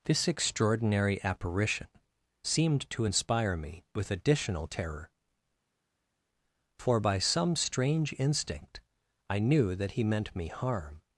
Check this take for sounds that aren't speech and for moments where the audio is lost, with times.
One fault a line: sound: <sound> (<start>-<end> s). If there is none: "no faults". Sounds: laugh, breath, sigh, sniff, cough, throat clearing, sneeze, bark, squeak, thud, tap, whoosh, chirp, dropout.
no faults